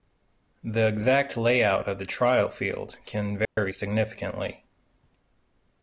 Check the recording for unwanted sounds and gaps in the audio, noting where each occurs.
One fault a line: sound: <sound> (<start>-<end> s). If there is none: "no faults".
sound: dropout (3.4-3.6 s)